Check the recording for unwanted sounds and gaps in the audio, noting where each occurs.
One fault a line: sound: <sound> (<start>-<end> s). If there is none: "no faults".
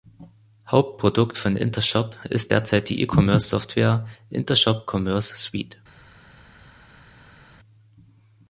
no faults